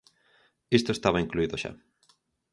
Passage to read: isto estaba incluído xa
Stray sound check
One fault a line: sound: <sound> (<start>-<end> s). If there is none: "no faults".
no faults